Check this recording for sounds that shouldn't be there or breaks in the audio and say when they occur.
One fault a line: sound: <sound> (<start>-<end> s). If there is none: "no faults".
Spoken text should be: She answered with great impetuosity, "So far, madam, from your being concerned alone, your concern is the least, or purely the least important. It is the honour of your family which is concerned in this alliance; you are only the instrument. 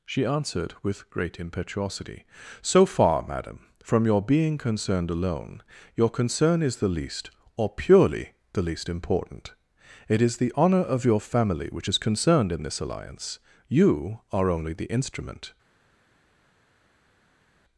no faults